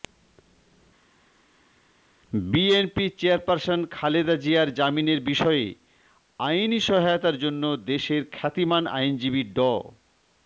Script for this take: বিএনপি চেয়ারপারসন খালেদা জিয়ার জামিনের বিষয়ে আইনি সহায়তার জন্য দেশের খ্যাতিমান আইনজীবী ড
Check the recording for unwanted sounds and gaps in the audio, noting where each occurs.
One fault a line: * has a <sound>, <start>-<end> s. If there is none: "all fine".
all fine